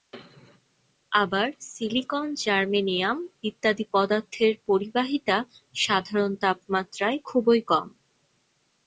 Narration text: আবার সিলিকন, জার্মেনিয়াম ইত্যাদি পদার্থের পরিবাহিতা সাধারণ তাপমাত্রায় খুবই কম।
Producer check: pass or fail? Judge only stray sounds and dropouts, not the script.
pass